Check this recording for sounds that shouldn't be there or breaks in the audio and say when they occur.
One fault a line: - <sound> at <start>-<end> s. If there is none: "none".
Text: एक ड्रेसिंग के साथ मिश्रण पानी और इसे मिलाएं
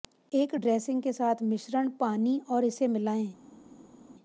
none